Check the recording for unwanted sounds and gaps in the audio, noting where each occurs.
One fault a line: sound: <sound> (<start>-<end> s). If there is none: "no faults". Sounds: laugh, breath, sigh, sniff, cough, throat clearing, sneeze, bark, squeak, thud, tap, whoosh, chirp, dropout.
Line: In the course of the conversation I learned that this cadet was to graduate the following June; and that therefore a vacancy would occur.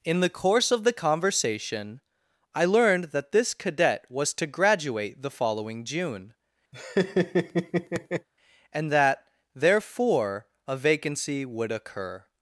sound: laugh (6.7-8.3 s)